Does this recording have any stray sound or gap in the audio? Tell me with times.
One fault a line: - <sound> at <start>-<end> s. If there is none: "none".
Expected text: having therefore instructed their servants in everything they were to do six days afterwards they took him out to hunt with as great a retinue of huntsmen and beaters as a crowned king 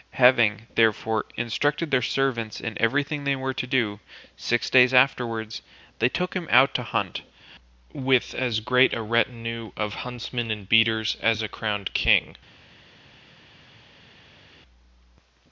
none